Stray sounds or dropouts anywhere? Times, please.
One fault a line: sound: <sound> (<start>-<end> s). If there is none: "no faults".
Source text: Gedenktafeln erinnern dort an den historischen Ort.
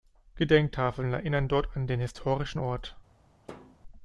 sound: thud (3.5-3.8 s)